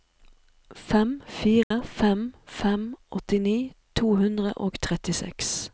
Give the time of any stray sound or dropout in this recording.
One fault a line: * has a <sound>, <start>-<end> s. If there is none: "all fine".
* has a dropout, 1.6-1.7 s